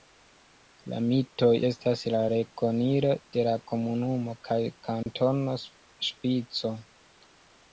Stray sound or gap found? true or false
true